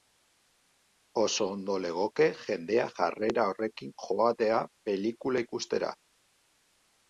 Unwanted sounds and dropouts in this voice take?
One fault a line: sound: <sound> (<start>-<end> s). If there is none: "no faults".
no faults